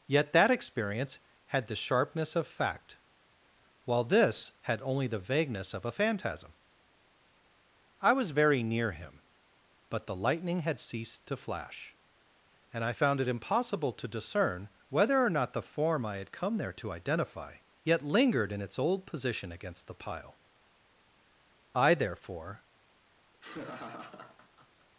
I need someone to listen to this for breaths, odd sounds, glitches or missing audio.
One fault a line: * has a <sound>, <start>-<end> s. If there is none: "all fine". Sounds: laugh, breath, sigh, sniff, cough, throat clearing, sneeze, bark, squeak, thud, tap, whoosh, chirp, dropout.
* has a laugh, 23.3-24.9 s